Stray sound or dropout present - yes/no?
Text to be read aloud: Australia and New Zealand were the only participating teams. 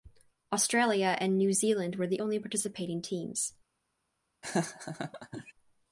yes